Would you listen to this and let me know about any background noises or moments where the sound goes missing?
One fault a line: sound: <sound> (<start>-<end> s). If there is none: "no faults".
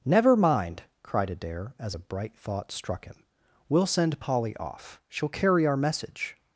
no faults